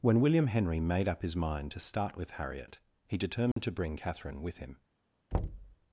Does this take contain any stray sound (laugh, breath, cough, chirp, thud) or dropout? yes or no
yes